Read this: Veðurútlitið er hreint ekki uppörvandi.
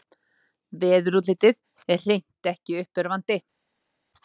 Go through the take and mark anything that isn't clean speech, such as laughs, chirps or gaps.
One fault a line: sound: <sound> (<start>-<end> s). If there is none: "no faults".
no faults